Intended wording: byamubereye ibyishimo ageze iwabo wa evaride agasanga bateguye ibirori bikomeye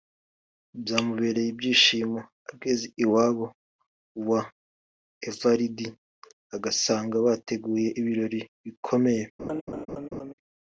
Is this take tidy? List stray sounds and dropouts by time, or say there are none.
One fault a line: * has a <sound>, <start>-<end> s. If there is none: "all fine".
* has a laugh, 9.4-10.3 s